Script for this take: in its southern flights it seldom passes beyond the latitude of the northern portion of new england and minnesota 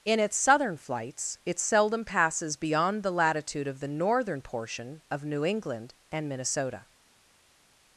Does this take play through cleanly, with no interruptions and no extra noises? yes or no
yes